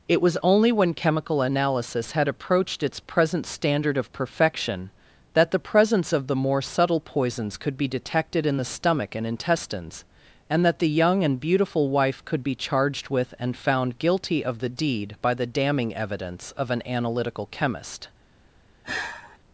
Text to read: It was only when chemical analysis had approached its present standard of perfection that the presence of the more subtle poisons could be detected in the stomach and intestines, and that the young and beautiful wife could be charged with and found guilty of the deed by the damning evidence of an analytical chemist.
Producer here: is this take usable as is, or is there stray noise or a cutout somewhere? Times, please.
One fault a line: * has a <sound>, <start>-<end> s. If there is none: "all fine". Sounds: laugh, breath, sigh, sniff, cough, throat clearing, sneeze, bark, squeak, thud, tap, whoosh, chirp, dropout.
* has a sigh, 18.8-19.4 s